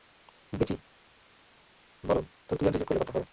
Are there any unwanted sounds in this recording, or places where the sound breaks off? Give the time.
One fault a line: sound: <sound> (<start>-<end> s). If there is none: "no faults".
no faults